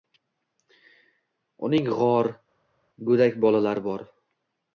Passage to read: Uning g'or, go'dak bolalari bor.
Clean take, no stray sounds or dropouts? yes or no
yes